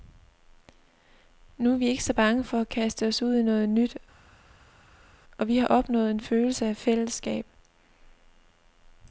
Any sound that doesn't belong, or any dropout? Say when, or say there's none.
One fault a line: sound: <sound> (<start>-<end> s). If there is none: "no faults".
no faults